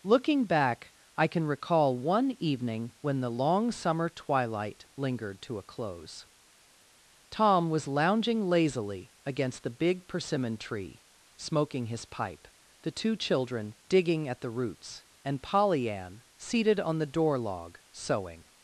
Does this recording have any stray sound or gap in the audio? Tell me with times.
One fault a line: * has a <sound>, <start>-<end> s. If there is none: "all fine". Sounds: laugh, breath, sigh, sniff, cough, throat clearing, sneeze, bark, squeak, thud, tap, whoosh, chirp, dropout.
all fine